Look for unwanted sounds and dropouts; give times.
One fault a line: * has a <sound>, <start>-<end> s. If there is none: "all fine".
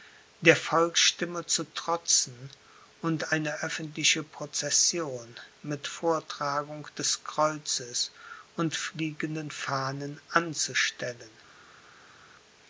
all fine